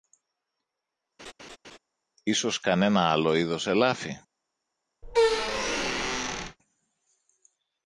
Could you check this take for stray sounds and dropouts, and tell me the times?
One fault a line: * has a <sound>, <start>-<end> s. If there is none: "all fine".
* has a laugh, 1.2-1.8 s
* has a squeak, 5.0-6.6 s